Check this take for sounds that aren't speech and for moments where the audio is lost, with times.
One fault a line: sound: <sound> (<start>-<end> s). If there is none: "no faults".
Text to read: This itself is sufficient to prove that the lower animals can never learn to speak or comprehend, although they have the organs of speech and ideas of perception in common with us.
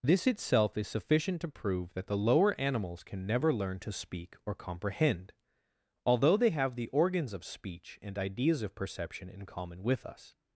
no faults